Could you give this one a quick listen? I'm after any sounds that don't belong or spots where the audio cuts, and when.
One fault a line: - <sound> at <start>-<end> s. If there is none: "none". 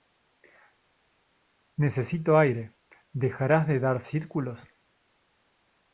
none